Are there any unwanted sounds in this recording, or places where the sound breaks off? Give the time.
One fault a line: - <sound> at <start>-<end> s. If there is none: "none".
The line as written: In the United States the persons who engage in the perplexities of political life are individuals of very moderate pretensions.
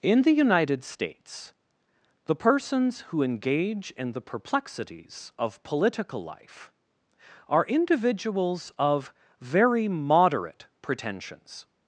none